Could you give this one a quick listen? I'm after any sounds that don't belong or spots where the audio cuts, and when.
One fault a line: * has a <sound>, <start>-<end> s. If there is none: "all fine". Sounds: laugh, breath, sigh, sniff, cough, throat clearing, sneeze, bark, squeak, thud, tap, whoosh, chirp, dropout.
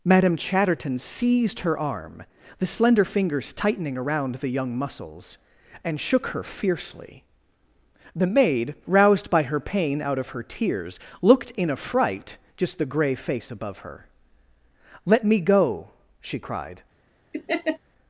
* has a laugh, 17.3-17.8 s